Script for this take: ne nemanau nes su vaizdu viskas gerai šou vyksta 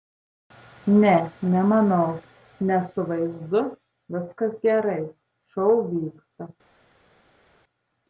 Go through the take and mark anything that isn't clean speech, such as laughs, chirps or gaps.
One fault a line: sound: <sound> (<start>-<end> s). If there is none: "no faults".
no faults